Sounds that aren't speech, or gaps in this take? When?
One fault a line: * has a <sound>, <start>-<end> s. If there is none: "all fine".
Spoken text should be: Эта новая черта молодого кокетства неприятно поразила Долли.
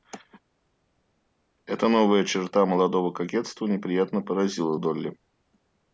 all fine